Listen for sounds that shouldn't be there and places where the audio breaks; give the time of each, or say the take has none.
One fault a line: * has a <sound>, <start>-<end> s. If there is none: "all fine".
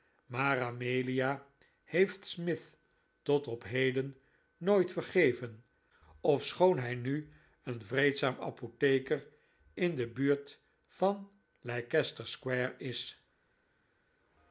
all fine